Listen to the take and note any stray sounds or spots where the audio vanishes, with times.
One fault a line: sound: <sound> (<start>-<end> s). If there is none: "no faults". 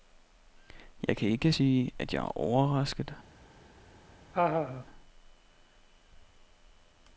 sound: laugh (4.3-4.9 s)